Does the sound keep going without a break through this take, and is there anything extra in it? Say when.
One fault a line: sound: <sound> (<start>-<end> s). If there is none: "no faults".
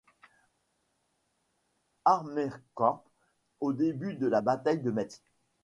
no faults